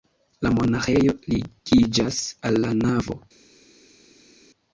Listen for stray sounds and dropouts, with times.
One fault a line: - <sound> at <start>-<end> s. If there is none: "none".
none